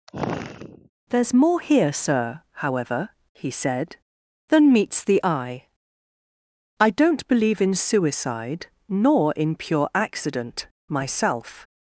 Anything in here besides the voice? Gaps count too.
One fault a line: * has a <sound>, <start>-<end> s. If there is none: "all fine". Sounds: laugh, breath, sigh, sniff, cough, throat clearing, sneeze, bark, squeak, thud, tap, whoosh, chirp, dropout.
* has a sigh, 0.1-0.9 s